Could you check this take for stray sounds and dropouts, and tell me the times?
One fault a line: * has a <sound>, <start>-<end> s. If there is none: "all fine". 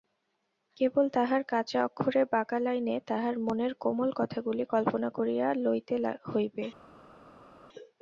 all fine